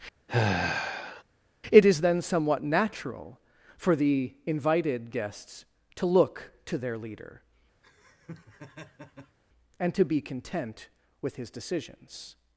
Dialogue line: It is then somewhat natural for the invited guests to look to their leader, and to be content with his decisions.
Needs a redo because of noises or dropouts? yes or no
yes